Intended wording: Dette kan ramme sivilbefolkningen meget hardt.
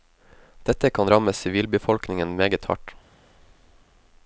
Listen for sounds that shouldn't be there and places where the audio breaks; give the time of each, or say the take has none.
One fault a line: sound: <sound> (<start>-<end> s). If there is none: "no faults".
no faults